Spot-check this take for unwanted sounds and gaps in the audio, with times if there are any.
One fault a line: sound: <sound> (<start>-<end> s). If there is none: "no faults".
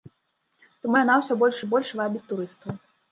no faults